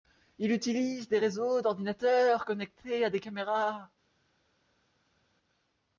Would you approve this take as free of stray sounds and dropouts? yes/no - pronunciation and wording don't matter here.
yes